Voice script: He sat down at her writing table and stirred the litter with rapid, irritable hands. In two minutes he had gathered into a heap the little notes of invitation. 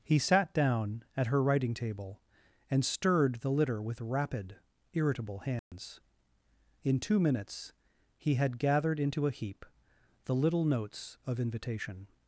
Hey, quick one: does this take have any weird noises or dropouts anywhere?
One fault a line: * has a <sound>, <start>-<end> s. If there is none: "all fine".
* has a dropout, 5.6-5.7 s